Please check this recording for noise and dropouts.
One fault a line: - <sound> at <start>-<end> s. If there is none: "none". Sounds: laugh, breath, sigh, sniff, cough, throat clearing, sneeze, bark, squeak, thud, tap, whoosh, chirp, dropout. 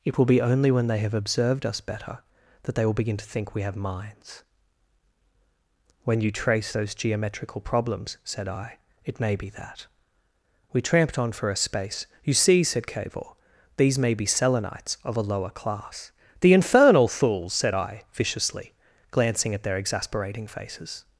none